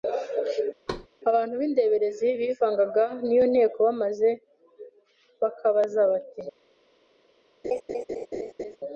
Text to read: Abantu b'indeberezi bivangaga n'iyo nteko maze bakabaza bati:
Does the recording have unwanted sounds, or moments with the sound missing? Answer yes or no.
yes